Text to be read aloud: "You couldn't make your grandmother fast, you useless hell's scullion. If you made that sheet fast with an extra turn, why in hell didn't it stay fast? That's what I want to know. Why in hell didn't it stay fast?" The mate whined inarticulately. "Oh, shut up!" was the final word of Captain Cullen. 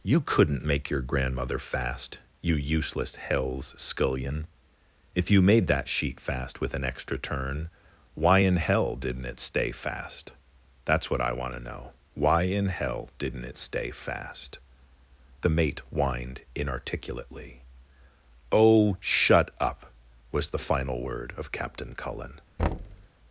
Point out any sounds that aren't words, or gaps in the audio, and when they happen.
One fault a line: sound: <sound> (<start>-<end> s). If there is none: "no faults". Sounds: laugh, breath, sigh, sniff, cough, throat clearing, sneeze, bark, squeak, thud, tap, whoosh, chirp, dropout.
sound: thud (22.6-23.1 s)